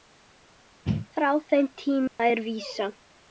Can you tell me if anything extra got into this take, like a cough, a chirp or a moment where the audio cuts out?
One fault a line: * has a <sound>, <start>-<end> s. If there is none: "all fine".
* has a dropout, 2.1-2.2 s